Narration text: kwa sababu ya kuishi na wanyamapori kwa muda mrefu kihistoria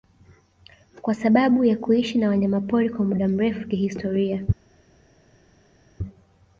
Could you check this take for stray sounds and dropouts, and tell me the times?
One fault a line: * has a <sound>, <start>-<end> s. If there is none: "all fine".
all fine